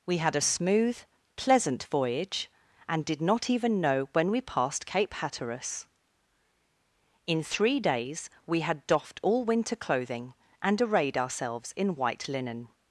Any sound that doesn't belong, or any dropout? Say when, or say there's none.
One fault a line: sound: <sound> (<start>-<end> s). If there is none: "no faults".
no faults